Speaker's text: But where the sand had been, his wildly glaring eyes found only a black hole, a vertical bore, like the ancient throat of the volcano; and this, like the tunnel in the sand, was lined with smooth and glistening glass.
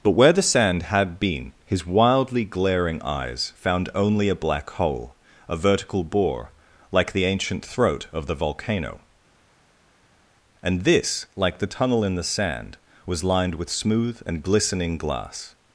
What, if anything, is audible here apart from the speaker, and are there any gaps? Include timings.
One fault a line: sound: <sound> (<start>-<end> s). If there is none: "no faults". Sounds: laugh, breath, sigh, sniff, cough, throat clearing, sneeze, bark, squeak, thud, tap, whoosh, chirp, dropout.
no faults